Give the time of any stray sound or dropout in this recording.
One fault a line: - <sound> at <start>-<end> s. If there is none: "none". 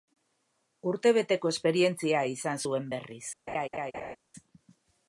- laugh at 3.5-4.2 s